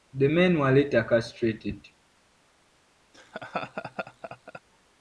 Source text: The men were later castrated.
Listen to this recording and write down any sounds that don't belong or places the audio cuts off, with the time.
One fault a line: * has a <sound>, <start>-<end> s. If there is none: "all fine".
* has a laugh, 3.1-4.6 s